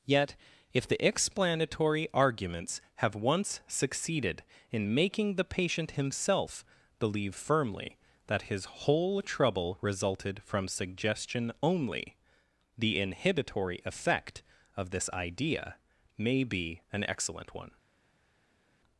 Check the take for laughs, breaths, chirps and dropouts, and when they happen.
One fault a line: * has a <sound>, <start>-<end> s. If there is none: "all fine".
all fine